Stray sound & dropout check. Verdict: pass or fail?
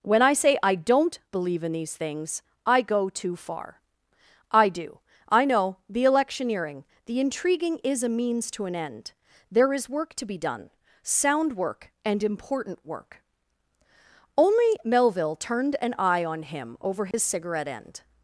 fail